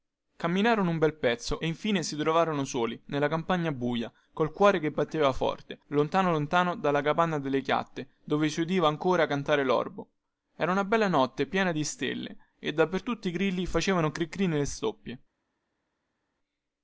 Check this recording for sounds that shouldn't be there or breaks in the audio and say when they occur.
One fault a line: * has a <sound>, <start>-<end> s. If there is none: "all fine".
all fine